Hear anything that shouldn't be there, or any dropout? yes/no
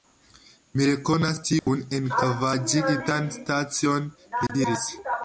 yes